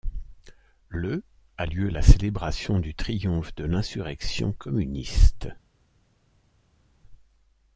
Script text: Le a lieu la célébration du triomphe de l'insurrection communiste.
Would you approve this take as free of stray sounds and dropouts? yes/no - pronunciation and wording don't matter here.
yes